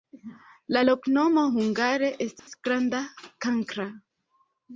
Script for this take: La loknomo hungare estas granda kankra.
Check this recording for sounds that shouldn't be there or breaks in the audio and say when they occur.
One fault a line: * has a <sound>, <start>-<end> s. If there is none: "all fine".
* has a dropout, 2.4-2.5 s